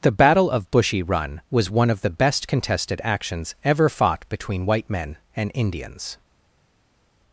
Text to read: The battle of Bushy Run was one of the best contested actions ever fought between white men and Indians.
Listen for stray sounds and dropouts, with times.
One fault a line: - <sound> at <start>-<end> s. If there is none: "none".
none